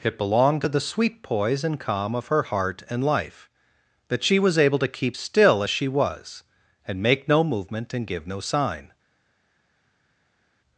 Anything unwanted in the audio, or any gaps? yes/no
no